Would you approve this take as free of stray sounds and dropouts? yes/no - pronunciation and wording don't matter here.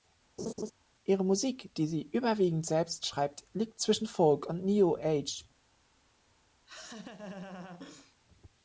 no